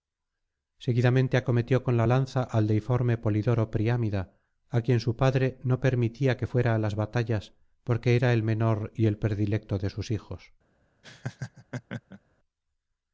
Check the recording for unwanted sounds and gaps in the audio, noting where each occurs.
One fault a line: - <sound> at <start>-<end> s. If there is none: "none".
- laugh at 11.0-12.2 s